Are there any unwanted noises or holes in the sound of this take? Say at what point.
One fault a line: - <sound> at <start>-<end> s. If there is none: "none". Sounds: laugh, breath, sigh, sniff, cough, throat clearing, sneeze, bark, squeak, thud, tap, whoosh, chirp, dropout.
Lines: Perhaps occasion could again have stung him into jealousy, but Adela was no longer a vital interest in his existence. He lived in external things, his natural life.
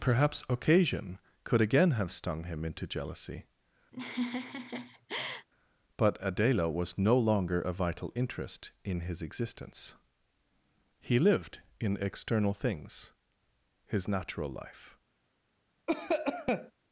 - laugh at 3.9-5.5 s
- cough at 15.9-16.7 s